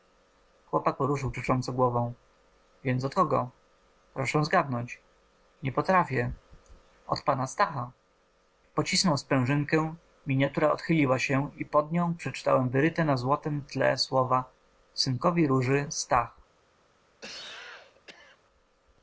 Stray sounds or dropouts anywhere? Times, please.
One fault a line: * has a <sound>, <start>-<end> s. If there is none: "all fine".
* has a cough, 17.2-18.4 s